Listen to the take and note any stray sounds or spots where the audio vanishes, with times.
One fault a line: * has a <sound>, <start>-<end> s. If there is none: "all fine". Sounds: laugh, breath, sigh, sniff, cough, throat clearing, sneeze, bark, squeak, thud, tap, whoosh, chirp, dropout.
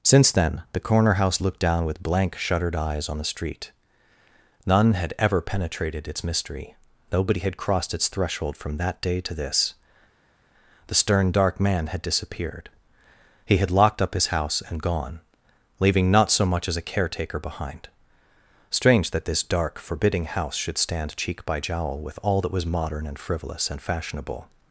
all fine